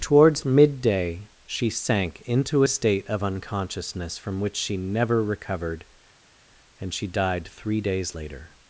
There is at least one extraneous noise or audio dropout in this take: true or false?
false